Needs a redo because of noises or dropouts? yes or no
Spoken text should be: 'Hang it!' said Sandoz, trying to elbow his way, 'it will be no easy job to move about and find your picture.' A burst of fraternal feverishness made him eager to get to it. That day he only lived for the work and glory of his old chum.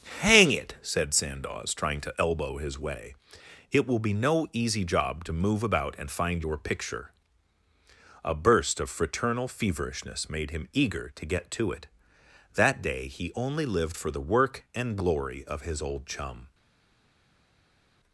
no